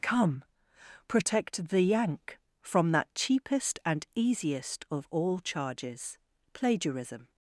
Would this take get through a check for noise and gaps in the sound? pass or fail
pass